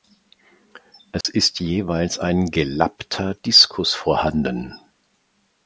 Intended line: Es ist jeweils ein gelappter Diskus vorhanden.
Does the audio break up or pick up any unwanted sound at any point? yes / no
yes